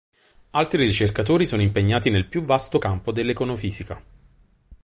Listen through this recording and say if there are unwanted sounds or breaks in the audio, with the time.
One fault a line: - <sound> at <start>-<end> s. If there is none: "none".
none